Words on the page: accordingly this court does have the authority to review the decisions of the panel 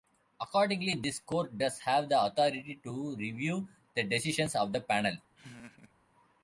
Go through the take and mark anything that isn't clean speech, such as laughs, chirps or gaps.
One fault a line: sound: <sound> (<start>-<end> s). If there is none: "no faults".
sound: laugh (5.3-5.9 s)